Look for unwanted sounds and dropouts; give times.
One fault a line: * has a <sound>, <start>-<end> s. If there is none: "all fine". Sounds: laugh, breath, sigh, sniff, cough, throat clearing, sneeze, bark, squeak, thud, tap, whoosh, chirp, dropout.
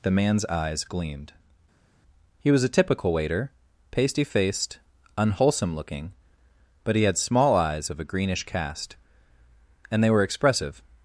all fine